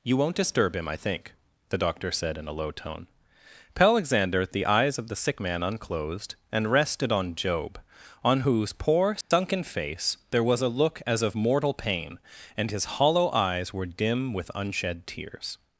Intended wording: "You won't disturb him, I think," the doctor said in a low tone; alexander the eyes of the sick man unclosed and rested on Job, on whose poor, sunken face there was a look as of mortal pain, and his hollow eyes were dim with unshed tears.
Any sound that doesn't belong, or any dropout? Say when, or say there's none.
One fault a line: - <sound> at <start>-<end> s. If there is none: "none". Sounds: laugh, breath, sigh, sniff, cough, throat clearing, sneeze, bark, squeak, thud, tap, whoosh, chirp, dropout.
- dropout at 9.2-9.3 s